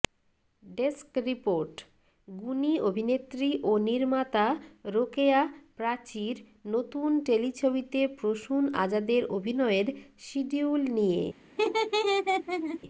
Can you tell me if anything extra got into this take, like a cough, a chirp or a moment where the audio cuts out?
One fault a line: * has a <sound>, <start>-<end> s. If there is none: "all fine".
* has a laugh, 11.6-12.8 s